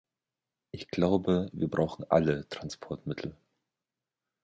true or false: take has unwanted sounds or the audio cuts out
false